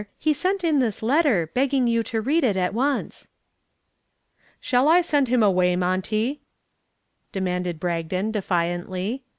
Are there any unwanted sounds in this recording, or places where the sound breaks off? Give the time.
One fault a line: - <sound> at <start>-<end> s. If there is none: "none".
none